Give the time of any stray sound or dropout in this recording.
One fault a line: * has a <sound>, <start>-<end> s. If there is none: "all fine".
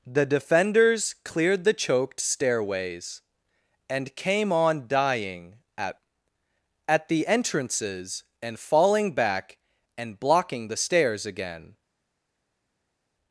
all fine